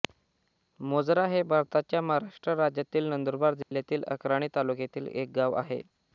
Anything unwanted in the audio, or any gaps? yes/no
yes